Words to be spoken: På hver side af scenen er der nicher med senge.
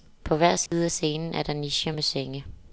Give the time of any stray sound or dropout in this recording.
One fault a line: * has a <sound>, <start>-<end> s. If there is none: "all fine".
* has a dropout, 0.7-0.7 s